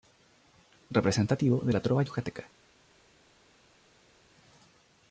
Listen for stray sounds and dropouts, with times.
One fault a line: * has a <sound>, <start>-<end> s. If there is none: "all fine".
all fine